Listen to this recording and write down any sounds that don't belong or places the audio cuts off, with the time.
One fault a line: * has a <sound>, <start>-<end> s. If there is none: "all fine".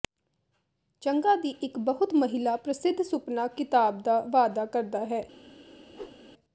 * has a whoosh, 5.9-6.2 s